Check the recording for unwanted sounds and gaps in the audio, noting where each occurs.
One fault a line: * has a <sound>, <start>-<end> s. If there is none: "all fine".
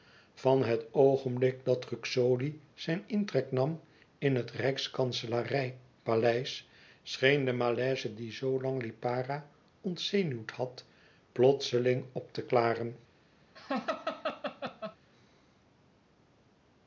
* has a laugh, 13.6-15.0 s